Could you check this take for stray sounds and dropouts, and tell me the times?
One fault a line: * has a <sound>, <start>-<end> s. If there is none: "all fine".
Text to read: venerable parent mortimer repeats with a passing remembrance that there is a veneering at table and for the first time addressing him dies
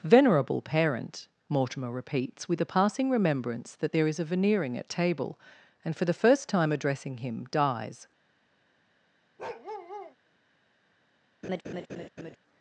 * has a bark, 9.4-10.2 s
* has a laugh, 11.4-12.4 s